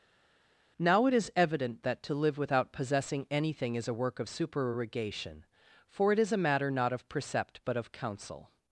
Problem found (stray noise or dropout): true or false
false